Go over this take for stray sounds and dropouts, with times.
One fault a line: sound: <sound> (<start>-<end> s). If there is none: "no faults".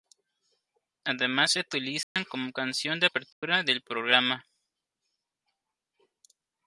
sound: dropout (2.0-2.2 s)
sound: dropout (3.3-3.4 s)